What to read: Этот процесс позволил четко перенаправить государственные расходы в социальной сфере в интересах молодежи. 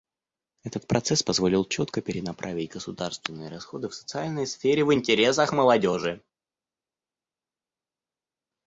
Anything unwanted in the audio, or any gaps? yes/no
no